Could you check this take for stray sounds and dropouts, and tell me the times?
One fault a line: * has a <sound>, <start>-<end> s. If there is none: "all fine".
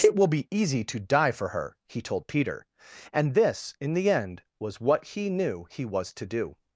all fine